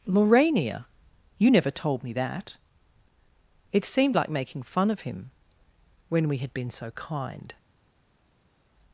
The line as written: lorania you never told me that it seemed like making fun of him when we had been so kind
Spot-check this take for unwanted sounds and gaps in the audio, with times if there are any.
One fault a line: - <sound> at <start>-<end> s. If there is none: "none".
none